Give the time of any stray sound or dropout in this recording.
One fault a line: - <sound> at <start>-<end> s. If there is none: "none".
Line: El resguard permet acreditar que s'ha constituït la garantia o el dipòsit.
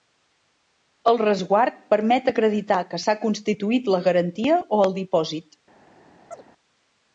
- chirp at 6.3-6.4 s